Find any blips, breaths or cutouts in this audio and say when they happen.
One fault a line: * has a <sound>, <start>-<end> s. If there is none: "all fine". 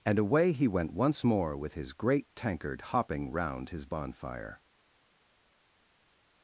all fine